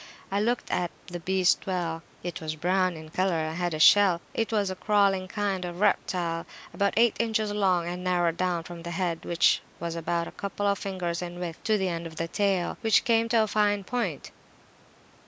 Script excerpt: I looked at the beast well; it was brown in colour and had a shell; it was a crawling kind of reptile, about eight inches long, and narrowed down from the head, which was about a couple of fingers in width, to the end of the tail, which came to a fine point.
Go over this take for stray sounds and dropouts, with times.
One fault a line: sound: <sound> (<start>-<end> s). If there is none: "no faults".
no faults